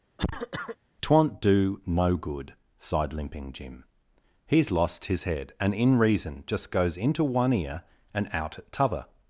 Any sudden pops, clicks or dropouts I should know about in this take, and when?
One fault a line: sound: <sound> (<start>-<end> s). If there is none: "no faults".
sound: cough (0.2-0.8 s)